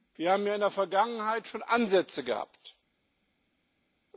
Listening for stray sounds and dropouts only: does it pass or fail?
pass